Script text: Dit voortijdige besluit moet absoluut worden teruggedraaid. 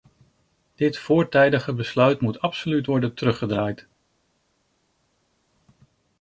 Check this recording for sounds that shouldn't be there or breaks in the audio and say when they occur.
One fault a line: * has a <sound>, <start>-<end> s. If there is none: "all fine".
all fine